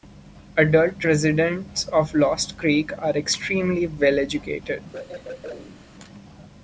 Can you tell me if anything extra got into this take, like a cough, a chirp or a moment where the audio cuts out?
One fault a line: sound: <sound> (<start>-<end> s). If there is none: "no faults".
sound: throat clearing (4.9-5.8 s)